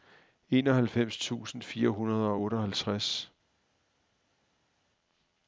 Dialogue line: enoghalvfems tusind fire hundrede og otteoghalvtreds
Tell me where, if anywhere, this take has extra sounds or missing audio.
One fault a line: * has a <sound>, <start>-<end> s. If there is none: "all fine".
all fine